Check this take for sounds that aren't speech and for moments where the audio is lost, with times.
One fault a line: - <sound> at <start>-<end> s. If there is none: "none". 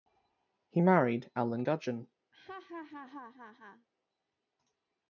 - laugh at 2.3-3.9 s